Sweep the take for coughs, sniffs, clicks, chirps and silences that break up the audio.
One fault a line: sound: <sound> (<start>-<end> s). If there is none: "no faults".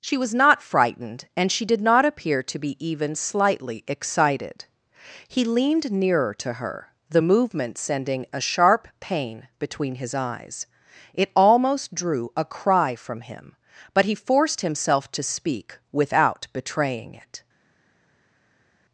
no faults